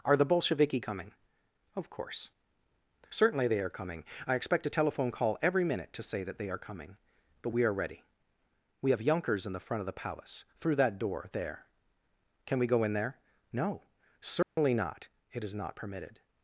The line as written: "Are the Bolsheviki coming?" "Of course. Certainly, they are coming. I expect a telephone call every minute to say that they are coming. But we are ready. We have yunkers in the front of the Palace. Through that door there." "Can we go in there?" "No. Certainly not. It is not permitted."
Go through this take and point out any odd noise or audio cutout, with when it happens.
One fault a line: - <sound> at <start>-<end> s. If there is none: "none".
- dropout at 14.4-14.6 s